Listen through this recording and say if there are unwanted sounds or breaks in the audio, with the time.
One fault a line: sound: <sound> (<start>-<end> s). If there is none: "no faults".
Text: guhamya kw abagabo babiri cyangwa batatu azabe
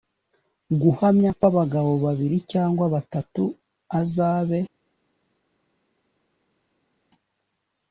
no faults